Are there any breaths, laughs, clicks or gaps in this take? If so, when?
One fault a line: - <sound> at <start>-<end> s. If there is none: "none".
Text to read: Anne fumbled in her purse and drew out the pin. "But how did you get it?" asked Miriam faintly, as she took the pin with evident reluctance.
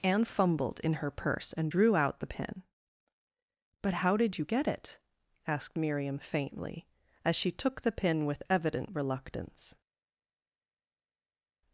none